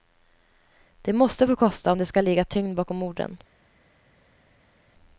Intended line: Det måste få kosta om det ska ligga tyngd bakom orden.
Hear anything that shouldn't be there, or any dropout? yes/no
no